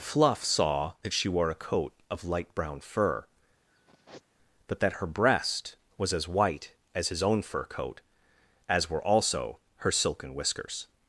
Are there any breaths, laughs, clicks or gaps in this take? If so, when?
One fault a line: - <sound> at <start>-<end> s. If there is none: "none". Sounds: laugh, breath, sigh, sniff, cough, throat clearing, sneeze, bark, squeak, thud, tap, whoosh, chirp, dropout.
- sigh at 3.7-4.2 s